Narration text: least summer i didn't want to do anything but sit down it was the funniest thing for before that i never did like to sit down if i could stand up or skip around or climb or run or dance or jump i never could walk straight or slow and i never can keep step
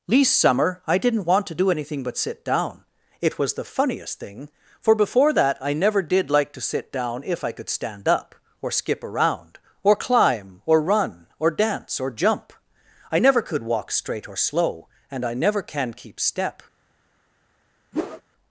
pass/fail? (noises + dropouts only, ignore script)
fail